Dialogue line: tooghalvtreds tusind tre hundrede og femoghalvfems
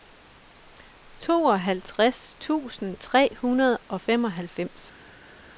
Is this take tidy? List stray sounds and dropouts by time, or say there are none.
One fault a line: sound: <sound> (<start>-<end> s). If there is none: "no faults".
no faults